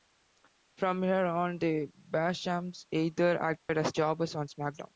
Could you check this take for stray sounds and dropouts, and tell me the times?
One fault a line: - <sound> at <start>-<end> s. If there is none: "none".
- dropout at 3.6-3.7 s